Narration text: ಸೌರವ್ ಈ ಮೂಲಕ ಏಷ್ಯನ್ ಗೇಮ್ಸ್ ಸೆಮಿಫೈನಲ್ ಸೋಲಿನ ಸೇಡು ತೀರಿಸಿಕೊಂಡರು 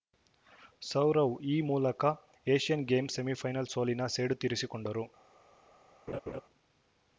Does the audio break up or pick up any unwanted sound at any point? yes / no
yes